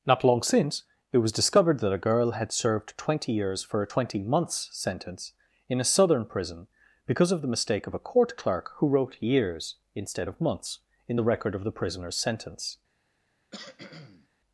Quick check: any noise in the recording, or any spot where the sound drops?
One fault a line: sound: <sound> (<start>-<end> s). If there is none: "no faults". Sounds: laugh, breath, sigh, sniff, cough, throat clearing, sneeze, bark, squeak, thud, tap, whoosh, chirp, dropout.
sound: cough (13.5-14.3 s)